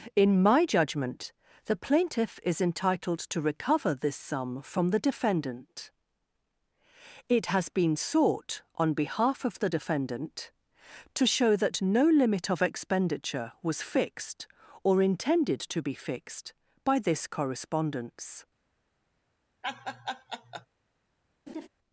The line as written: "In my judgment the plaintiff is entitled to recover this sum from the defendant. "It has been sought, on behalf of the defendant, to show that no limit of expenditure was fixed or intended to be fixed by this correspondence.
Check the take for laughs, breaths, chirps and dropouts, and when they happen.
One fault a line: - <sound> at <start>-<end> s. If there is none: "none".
- laugh at 19.6-20.7 s
- laugh at 21.5-21.7 s